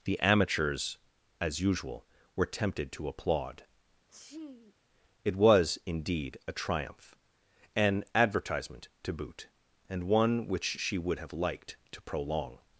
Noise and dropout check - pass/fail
fail